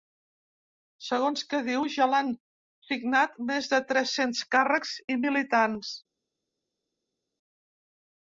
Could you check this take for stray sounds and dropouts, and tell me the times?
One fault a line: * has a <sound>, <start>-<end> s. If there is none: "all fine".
all fine